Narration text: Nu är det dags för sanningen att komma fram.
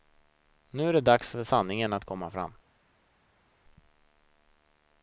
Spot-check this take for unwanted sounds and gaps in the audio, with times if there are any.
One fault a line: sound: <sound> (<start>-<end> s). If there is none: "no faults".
no faults